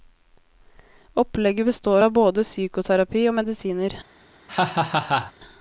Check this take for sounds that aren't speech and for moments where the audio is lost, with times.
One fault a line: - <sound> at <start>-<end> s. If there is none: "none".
- laugh at 4.5-5.3 s